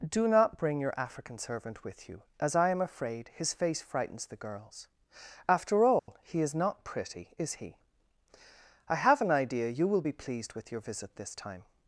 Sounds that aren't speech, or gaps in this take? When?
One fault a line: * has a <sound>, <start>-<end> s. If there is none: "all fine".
* has a dropout, 6.0-6.1 s